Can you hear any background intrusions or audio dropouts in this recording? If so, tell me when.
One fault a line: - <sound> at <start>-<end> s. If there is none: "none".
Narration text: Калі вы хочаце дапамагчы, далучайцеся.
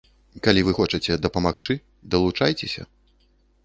- dropout at 1.5-1.7 s